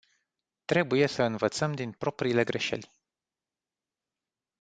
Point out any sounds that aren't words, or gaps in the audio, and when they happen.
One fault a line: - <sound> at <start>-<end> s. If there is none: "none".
none